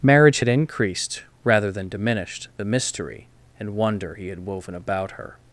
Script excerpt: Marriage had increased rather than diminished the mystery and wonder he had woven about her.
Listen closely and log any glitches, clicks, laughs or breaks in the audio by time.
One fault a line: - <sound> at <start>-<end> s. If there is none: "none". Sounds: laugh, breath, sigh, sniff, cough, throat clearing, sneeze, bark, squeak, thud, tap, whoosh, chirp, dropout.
none